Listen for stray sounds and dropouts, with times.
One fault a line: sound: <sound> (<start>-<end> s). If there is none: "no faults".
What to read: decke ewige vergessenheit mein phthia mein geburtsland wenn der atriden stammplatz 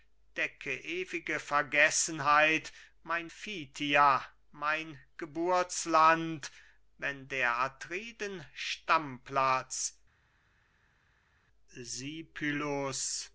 no faults